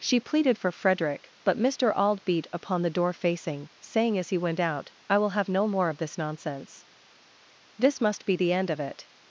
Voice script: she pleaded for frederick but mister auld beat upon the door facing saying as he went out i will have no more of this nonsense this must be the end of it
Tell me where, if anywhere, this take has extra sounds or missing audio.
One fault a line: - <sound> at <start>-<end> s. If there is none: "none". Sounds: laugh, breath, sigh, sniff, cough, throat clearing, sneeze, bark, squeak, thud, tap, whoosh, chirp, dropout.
none